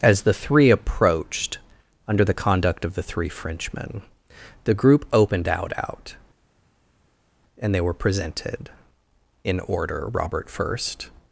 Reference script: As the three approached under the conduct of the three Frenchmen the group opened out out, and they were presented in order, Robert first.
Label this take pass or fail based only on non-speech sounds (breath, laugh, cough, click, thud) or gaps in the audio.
pass